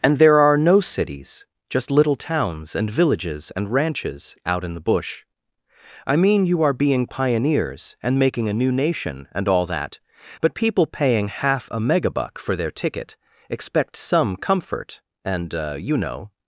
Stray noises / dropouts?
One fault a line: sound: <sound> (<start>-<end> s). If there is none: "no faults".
no faults